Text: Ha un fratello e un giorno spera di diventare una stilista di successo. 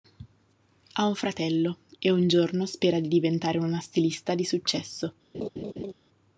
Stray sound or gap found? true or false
true